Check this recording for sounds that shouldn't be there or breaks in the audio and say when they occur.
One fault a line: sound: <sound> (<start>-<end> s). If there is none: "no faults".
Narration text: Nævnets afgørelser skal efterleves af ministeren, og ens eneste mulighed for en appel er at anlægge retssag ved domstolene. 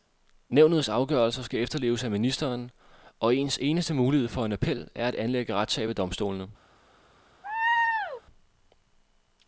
sound: laugh (7.4-8.2 s)